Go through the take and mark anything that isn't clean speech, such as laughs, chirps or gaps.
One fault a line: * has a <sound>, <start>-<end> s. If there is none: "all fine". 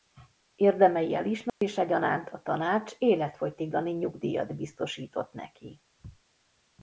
* has a dropout, 1.5-1.6 s